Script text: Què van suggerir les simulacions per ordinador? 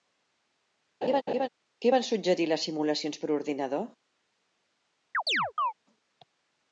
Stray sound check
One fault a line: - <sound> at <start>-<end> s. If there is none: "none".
- laugh at 1.0-1.5 s
- chirp at 5.1-5.7 s